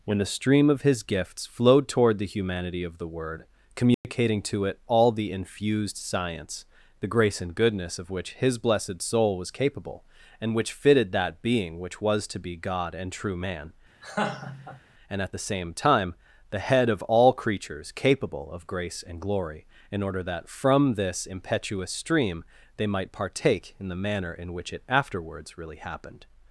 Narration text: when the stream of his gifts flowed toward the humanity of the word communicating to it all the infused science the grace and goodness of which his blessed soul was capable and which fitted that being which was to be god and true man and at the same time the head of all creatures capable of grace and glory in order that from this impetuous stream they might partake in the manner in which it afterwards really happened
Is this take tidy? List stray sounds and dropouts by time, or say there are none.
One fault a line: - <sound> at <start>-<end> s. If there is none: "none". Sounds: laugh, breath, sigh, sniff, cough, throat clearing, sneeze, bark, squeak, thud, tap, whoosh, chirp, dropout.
- dropout at 3.9-4.0 s
- laugh at 14.0-14.8 s